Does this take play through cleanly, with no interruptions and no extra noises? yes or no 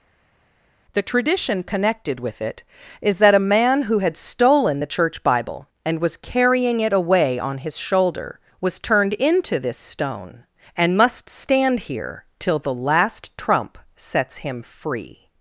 yes